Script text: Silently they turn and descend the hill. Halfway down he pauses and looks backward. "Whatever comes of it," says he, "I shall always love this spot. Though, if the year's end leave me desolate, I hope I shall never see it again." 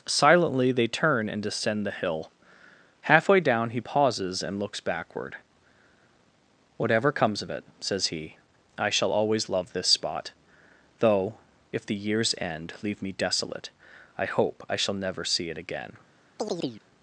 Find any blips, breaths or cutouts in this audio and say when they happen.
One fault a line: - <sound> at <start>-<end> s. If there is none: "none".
- chirp at 16.4-16.8 s